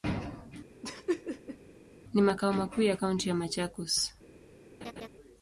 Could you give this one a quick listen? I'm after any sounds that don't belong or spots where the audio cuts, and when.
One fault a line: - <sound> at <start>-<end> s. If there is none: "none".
- laugh at 0.8-1.6 s
- laugh at 4.8-5.1 s